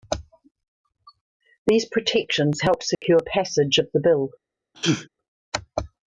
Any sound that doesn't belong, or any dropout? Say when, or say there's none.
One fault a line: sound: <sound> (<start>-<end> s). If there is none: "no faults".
sound: dropout (2.9-3.0 s)
sound: sneeze (4.7-5.1 s)